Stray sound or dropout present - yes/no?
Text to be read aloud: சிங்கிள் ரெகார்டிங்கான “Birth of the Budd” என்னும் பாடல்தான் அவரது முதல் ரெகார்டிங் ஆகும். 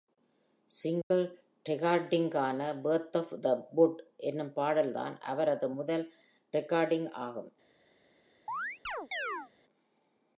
yes